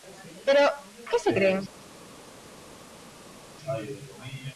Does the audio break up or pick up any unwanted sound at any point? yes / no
no